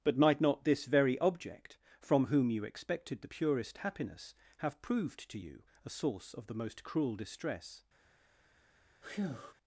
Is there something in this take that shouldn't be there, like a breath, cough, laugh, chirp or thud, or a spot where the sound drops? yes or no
yes